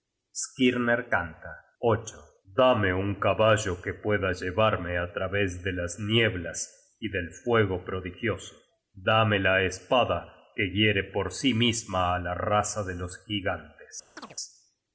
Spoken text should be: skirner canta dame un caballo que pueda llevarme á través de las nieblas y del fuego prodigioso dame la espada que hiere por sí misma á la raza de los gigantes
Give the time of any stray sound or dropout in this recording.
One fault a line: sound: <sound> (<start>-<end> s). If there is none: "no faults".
sound: chirp (14.2-14.4 s)